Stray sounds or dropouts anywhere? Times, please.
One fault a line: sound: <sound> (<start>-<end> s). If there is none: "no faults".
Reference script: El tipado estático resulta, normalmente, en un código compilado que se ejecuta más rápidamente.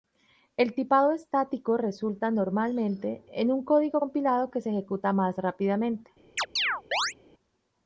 sound: chirp (6.4-7.1 s)